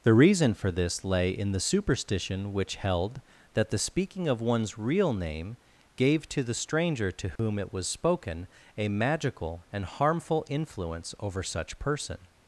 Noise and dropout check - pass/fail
fail